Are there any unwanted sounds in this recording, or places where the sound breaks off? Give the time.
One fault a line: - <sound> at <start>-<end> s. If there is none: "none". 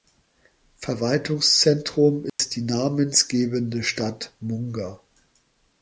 - dropout at 2.3-2.4 s